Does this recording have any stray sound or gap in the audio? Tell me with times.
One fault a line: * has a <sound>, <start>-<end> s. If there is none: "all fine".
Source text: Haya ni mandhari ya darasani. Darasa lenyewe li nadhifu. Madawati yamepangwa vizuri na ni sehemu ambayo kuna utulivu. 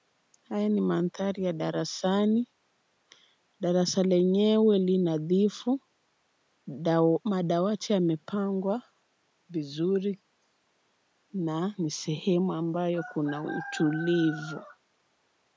all fine